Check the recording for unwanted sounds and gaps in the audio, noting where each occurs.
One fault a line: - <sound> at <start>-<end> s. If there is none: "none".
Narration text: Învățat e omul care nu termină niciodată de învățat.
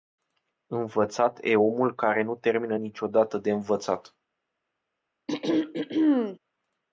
- throat clearing at 5.3-6.4 s